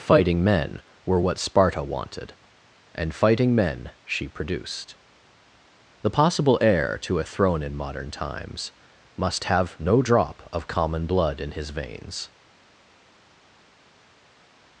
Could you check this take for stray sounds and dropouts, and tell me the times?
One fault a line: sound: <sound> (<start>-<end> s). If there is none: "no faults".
no faults